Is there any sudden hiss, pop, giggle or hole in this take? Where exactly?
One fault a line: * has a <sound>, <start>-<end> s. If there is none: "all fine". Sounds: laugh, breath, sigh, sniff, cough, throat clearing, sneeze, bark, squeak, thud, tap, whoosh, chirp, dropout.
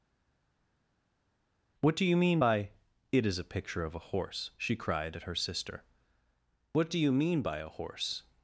all fine